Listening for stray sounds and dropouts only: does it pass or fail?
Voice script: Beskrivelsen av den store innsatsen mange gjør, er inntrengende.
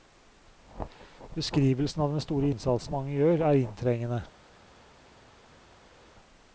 pass